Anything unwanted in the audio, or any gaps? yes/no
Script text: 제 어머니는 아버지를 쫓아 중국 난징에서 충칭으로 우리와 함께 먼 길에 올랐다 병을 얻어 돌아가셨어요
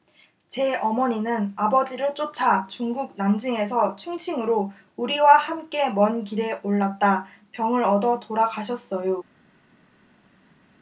no